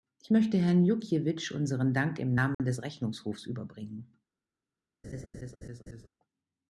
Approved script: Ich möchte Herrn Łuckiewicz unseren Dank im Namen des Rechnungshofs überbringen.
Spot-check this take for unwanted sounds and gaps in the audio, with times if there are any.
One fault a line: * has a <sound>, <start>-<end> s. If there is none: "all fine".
* has a dropout, 2.5-2.6 s
* has a laugh, 5.0-6.1 s